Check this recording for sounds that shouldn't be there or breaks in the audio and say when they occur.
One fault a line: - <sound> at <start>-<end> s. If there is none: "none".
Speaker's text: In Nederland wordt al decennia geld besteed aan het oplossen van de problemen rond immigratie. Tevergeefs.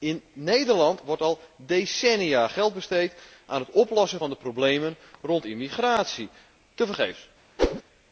- whoosh at 7.6-7.8 s